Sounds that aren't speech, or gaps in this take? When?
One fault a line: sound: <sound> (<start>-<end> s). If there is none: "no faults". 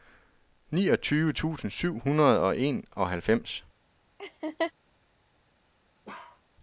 sound: laugh (4.2-4.7 s)
sound: bark (6.1-6.4 s)